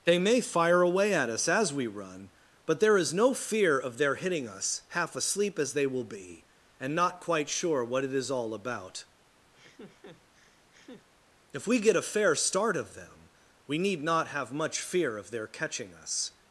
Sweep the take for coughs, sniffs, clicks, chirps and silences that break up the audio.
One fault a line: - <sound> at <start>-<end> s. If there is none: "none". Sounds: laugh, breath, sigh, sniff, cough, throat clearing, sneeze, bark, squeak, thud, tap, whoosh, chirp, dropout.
- laugh at 9.5-11.1 s